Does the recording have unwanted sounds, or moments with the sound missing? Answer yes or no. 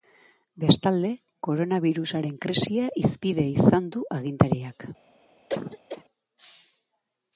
yes